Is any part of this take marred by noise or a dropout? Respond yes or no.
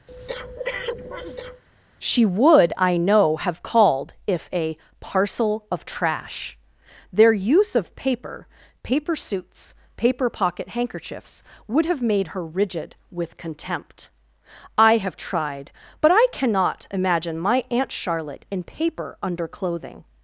yes